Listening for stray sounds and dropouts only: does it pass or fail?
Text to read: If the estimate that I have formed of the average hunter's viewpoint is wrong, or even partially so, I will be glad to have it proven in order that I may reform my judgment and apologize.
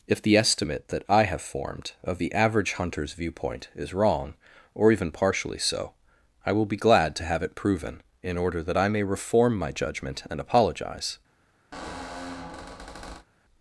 fail